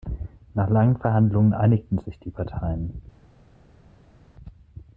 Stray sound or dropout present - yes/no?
no